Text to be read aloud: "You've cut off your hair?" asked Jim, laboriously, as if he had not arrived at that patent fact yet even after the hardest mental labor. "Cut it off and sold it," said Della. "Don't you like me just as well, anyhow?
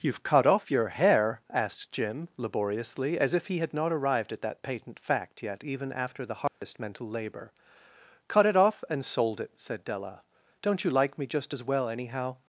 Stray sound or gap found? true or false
true